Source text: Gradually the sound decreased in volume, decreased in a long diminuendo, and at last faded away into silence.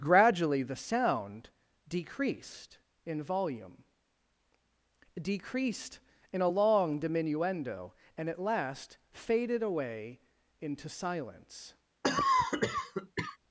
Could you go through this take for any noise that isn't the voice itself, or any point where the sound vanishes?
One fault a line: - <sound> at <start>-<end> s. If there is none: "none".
- cough at 12.0-13.4 s